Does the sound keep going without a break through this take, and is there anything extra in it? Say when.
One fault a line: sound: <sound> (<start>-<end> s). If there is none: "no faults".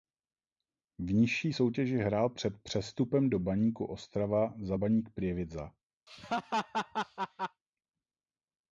sound: laugh (6.1-7.6 s)